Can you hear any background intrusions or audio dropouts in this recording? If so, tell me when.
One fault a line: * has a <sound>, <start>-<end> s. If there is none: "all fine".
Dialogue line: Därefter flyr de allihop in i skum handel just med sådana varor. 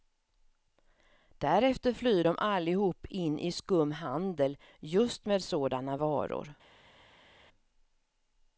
all fine